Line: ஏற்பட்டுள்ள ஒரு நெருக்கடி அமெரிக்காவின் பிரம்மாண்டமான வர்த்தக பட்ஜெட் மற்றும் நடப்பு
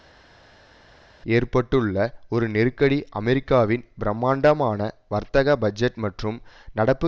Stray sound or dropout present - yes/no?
no